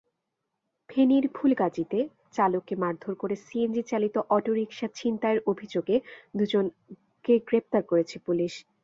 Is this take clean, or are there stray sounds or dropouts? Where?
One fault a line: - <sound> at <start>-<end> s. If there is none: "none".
none